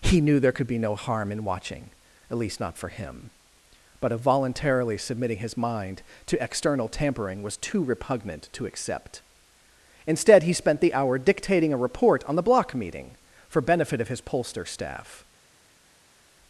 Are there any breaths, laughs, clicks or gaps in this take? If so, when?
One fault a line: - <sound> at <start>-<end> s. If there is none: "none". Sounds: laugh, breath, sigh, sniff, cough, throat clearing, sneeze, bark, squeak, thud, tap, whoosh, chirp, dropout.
none